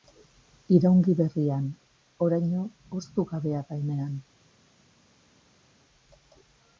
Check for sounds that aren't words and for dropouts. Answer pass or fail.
pass